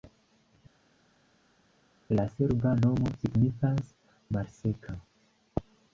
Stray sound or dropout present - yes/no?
no